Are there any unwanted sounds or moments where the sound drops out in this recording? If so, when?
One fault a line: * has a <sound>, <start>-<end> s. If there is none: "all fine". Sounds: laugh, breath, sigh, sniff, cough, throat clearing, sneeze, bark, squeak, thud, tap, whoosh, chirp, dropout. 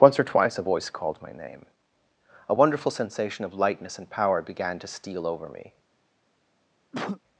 * has a cough, 6.9-7.2 s